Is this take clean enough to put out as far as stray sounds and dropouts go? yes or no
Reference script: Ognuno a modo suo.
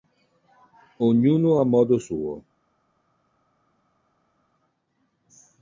yes